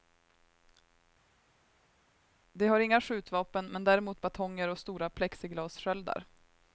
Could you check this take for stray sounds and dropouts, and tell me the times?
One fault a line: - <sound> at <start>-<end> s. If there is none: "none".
none